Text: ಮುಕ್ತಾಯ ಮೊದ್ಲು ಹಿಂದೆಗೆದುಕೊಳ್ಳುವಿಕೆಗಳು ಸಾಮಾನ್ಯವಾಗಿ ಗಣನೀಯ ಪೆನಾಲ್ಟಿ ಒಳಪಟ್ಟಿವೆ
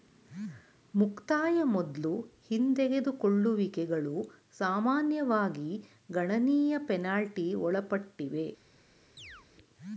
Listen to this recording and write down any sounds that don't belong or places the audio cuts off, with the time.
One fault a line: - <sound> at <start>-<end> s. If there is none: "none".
- chirp at 9.2-9.5 s